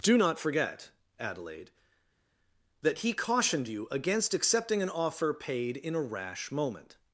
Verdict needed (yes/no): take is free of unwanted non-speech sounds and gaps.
yes